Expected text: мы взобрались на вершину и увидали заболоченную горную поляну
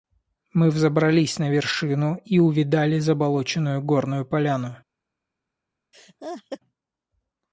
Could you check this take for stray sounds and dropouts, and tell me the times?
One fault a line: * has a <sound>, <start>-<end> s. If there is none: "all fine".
* has a laugh, 5.9-6.6 s